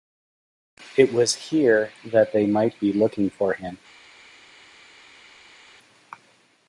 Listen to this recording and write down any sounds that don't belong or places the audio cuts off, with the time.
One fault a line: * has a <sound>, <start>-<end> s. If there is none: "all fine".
all fine